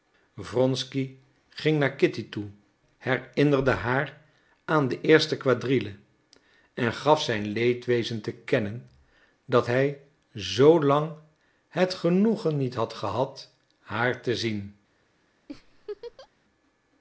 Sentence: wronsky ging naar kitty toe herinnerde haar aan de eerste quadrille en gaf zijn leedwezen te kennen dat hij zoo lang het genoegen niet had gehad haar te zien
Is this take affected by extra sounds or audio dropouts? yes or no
yes